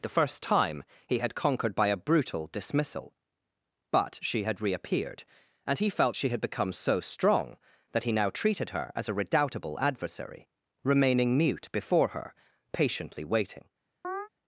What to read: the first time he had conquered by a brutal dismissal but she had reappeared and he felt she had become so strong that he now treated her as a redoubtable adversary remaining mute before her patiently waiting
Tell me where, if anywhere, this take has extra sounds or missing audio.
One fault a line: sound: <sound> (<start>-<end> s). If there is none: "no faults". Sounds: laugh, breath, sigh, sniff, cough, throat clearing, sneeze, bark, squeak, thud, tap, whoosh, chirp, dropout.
sound: chirp (14.0-14.3 s)